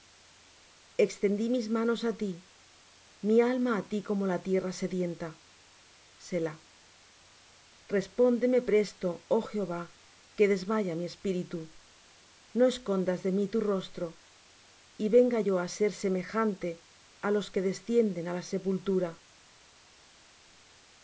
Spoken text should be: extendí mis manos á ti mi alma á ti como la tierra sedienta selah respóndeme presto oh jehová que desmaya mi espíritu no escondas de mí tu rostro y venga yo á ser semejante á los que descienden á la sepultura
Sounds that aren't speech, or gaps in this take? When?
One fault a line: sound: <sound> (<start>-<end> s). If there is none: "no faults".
no faults